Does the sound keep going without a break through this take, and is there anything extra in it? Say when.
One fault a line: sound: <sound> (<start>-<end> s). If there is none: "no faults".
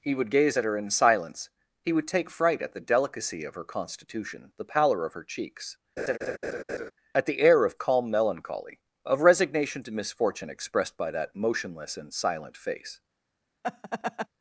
sound: laugh (6.0-6.9 s)
sound: laugh (13.6-14.3 s)